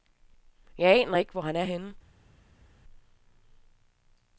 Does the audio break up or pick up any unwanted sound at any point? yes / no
no